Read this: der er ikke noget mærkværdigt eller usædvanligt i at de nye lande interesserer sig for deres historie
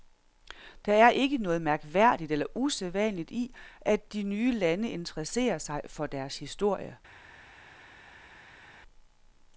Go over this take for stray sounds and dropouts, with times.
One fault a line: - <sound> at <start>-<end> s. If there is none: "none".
none